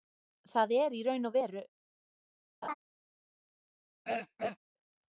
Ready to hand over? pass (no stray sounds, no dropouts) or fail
fail